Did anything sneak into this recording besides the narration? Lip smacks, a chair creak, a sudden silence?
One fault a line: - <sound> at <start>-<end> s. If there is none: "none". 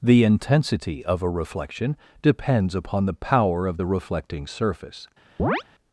- chirp at 5.4-5.6 s